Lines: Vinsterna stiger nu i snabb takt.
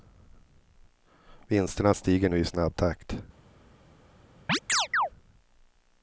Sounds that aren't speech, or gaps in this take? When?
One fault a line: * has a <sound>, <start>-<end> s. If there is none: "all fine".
* has a chirp, 4.5-5.1 s